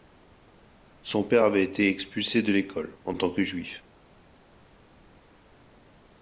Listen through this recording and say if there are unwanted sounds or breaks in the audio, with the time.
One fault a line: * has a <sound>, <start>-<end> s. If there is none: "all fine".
all fine